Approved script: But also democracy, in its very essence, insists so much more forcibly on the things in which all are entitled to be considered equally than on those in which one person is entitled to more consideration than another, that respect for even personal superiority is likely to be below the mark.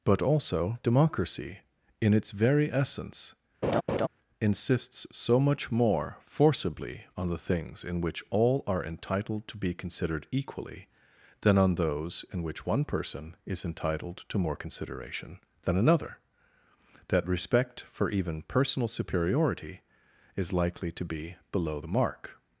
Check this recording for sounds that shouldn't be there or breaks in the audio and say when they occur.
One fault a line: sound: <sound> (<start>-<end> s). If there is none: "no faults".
sound: laugh (3.6-4.1 s)